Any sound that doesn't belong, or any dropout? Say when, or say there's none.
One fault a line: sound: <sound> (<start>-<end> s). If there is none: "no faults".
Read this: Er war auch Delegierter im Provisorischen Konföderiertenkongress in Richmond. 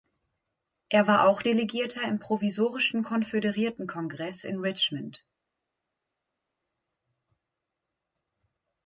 no faults